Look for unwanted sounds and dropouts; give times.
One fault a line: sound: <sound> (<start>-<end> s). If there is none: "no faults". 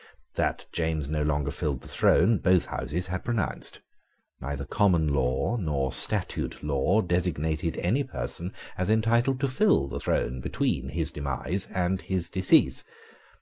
no faults